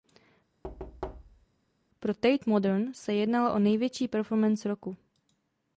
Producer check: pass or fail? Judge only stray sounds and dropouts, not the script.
fail